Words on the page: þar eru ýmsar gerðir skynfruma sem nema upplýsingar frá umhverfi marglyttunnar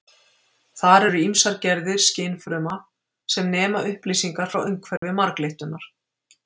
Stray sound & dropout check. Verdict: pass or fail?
fail